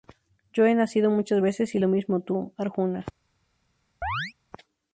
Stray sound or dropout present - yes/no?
yes